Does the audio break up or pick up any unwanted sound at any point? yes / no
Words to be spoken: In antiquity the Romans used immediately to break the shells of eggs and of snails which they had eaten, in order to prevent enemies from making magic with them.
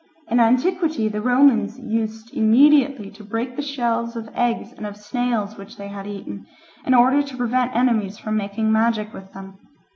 no